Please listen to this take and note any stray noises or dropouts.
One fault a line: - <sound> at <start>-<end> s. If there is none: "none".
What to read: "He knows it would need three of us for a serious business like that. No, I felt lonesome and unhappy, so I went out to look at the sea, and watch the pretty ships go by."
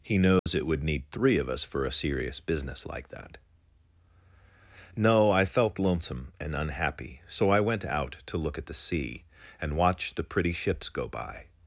- dropout at 0.4-0.5 s